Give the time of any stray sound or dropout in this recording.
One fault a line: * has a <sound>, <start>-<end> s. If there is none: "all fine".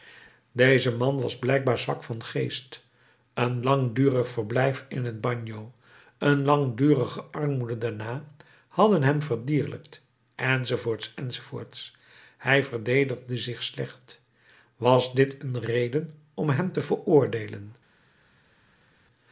all fine